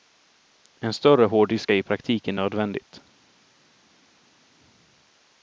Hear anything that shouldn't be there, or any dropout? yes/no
no